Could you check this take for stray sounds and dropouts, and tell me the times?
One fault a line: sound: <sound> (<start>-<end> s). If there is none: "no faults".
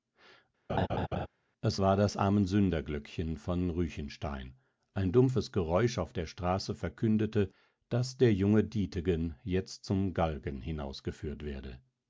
sound: laugh (0.7-1.3 s)